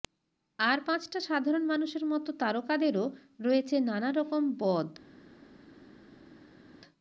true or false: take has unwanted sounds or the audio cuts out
false